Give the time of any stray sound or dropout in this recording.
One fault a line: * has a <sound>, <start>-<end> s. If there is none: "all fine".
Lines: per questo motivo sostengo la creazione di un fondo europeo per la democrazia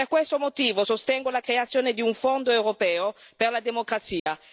* has a dropout, 4.2-4.3 s